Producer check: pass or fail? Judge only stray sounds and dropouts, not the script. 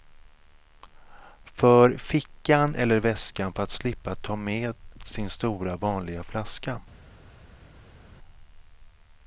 pass